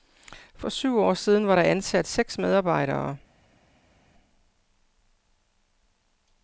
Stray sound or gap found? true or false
false